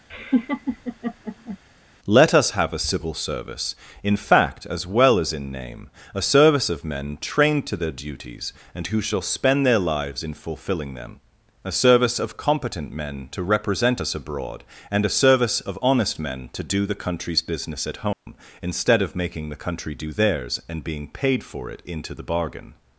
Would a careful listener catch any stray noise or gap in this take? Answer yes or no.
yes